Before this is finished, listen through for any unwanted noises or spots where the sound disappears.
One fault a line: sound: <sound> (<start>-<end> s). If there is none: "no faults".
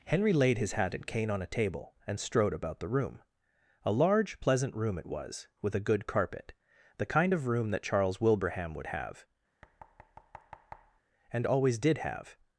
sound: thud (9.6-11.0 s)